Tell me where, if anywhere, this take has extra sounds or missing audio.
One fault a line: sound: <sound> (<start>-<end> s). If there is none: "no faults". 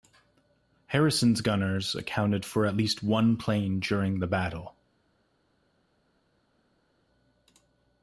no faults